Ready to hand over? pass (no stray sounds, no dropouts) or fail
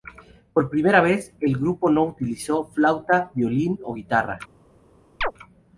fail